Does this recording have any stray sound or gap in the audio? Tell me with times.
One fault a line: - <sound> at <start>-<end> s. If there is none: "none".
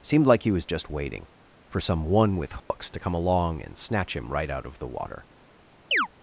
- dropout at 2.6-2.7 s
- chirp at 5.9-6.1 s